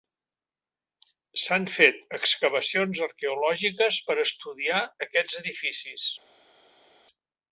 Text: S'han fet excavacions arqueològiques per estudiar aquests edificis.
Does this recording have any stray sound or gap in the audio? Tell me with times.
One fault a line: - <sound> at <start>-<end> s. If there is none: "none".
none